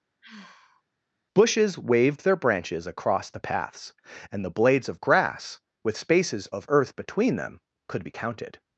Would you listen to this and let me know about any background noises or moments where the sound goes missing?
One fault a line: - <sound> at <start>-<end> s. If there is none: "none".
- sigh at 0.2-0.8 s